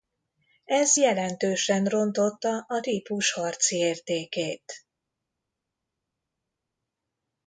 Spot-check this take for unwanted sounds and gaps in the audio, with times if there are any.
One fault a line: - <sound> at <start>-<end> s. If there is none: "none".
none